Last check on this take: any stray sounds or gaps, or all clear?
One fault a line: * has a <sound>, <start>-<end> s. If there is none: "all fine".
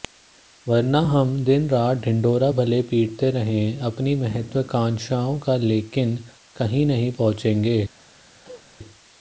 * has a cough, 8.4-8.7 s